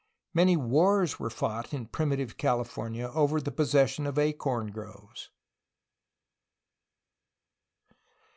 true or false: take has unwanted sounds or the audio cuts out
false